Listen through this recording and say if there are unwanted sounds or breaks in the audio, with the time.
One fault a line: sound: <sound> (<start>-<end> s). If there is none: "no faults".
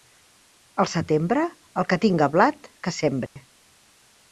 sound: dropout (3.3-3.4 s)